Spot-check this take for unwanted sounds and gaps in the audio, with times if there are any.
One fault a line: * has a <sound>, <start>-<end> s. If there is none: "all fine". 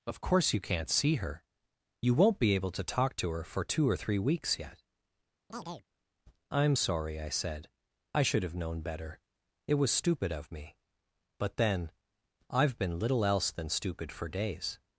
* has a chirp, 5.5-5.9 s